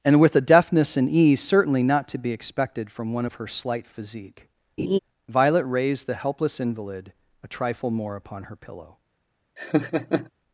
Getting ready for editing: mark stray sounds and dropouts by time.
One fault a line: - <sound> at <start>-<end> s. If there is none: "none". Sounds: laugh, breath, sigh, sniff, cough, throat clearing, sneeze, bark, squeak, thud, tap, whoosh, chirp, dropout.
- laugh at 4.8-5.0 s
- laugh at 9.6-10.3 s